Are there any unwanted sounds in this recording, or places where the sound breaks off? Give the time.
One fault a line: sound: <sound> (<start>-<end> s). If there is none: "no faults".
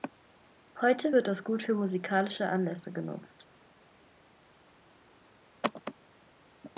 no faults